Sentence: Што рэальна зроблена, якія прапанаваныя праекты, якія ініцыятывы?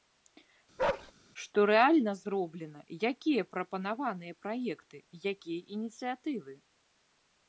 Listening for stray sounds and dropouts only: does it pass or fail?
fail